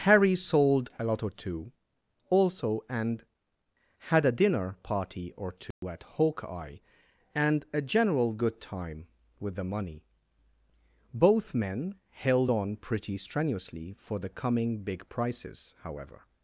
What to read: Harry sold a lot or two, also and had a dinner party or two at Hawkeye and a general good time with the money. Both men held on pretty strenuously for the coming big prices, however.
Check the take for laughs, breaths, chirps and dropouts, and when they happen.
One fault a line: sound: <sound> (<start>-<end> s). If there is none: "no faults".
sound: dropout (5.7-5.8 s)